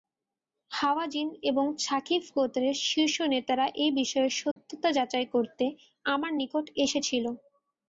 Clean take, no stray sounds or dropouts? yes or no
no